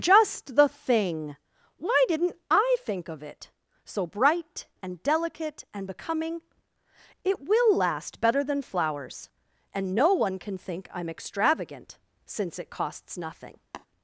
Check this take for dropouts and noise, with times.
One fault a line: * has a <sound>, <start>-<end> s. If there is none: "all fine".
* has a tap, 13.7-13.9 s